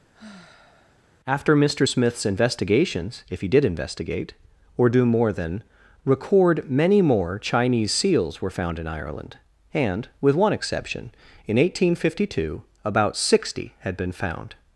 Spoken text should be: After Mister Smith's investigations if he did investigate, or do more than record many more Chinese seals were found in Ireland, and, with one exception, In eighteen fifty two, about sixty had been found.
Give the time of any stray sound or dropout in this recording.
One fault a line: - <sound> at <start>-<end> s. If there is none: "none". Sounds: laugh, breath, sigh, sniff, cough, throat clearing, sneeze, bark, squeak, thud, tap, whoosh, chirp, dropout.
- sigh at 0.1-1.1 s